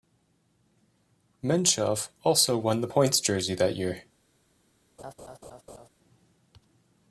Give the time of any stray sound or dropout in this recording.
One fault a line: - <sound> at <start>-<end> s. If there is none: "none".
- laugh at 5.0-5.9 s